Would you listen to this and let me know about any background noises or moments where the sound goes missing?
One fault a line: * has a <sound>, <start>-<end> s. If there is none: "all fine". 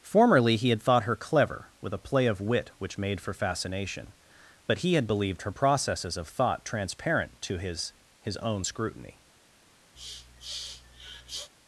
* has a sniff, 9.9-11.5 s